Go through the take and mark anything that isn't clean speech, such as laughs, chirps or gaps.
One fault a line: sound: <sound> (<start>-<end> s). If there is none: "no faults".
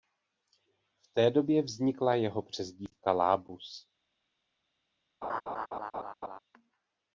sound: laugh (5.2-6.4 s)